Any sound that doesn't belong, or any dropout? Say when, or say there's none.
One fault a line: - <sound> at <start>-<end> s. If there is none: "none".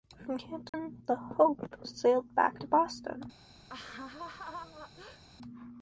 - dropout at 0.7-0.7 s
- laugh at 3.7-5.2 s